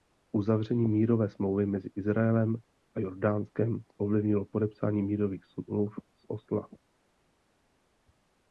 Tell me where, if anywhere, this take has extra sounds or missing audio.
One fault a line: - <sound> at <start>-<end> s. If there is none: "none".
none